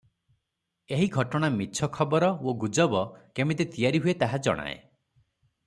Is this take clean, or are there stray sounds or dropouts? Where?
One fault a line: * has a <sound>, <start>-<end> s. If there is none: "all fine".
all fine